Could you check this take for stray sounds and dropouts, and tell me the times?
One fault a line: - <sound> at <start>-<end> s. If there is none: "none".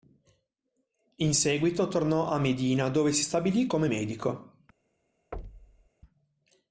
- thud at 5.3-5.9 s